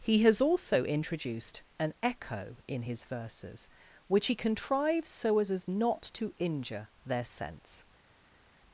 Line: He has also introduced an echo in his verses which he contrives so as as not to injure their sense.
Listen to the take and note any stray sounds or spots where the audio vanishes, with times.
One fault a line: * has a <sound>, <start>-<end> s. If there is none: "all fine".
all fine